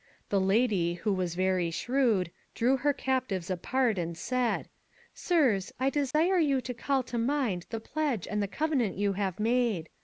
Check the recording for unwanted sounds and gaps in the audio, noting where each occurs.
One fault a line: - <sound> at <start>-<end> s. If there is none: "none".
- dropout at 6.1-6.1 s